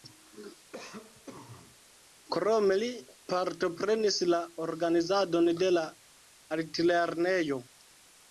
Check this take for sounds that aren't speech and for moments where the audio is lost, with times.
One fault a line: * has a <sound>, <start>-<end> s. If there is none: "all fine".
* has a cough, 0.7-1.8 s